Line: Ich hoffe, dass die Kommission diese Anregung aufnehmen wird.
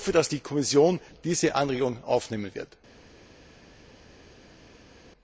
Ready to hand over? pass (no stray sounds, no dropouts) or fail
pass